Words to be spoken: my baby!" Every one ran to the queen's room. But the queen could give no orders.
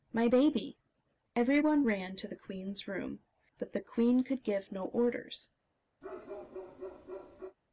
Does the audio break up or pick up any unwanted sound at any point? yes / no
yes